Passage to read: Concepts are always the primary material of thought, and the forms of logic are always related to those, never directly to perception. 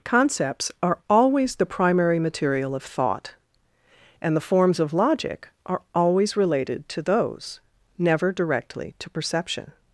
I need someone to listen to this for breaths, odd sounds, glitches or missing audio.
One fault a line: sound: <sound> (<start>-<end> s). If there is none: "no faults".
no faults